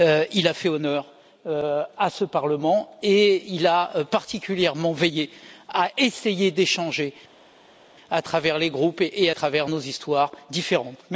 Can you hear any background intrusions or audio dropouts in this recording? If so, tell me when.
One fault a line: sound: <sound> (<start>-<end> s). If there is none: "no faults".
no faults